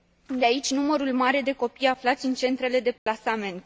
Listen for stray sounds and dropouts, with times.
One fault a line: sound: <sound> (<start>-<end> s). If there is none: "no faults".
sound: dropout (3.0-3.1 s)